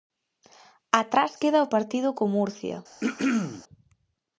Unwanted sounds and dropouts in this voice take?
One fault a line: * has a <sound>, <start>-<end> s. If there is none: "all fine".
* has a throat clearing, 3.0-3.6 s